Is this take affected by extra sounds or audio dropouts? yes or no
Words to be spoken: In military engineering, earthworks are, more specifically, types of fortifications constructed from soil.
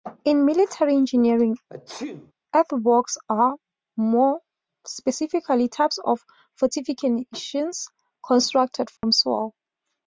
yes